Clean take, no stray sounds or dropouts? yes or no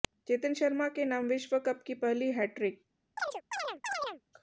no